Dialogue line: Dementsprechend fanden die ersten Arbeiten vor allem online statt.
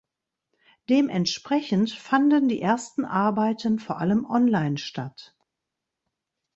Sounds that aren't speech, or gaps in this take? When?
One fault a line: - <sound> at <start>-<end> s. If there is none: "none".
none